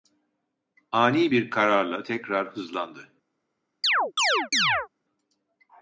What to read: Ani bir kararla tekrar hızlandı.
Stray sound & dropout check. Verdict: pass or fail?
fail